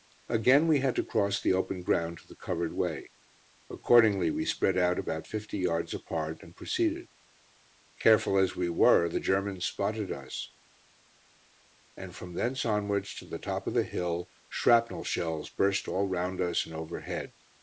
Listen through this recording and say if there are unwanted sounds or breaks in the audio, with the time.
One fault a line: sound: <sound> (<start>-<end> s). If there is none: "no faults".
no faults